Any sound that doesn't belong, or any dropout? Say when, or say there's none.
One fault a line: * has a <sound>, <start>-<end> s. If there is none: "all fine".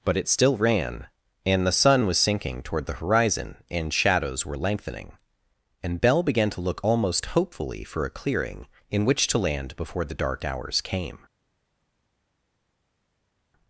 all fine